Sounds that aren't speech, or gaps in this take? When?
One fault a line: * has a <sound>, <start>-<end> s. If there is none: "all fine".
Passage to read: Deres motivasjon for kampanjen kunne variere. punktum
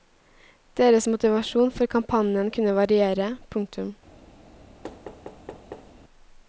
* has a thud, 4.8-5.9 s